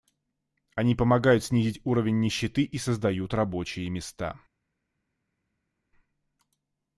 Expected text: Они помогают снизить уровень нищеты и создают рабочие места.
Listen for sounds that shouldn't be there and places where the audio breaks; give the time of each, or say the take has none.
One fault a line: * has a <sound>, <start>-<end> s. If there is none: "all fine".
all fine